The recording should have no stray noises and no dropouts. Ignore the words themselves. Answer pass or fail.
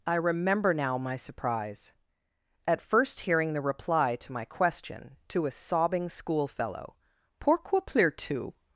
pass